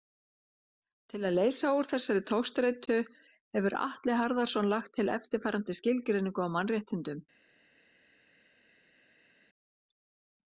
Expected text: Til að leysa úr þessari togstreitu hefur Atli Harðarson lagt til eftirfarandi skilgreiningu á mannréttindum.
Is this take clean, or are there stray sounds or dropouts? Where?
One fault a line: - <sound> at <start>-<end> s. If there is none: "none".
none